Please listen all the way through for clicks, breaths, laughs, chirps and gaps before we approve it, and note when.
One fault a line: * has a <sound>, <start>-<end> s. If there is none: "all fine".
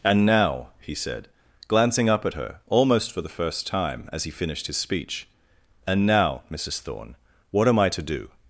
all fine